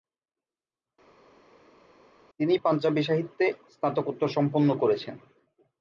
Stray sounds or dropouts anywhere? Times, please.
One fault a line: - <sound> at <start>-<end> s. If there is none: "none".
none